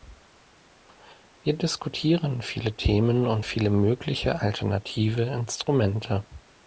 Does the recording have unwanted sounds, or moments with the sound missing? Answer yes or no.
no